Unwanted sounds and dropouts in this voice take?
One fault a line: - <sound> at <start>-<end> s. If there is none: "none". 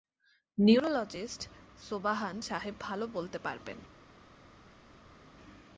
none